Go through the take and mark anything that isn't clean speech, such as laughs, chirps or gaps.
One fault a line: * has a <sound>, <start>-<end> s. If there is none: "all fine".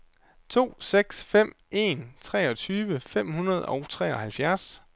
all fine